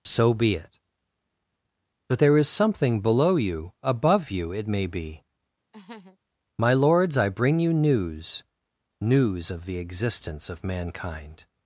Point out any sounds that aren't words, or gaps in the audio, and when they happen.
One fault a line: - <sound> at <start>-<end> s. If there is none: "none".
- laugh at 5.7-6.2 s